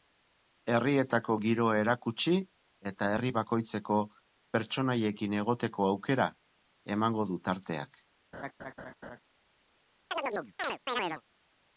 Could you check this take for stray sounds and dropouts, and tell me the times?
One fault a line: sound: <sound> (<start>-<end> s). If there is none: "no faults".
sound: laugh (8.3-9.2 s)
sound: chirp (10.1-11.2 s)